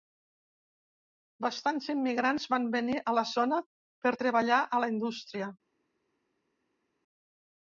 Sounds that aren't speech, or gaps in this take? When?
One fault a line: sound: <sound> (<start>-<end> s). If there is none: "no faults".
no faults